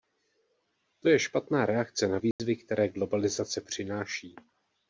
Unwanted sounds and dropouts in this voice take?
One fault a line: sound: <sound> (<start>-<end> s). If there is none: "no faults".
sound: dropout (2.3-2.4 s)